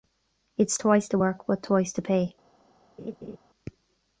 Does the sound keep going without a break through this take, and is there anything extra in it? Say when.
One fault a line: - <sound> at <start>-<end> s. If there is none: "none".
- laugh at 3.0-3.4 s